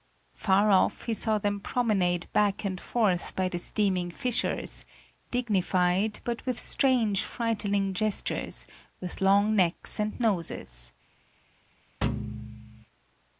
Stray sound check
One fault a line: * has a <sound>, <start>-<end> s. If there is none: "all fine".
* has a thud, 12.0-12.8 s